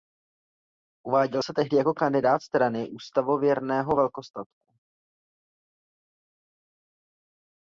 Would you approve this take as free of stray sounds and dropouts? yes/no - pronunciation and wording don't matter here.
yes